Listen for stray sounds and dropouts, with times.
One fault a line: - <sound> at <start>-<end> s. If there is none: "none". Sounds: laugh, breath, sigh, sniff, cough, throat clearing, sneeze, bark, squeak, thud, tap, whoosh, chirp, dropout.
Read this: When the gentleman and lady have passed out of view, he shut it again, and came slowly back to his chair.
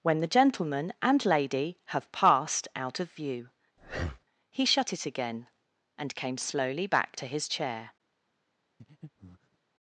- breath at 3.8-4.2 s
- breath at 8.8-9.6 s